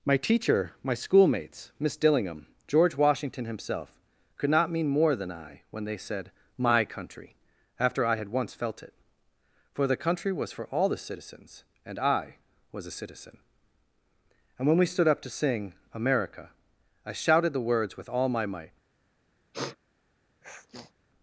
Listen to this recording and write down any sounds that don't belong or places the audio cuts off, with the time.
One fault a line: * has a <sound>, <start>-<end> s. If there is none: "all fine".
* has a sniff, 19.5-19.8 s
* has a sniff, 20.4-20.9 s